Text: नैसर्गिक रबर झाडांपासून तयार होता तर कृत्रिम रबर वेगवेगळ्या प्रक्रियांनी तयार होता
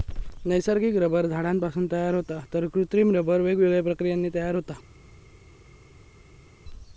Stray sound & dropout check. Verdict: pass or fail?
pass